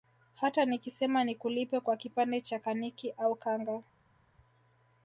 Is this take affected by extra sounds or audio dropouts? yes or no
no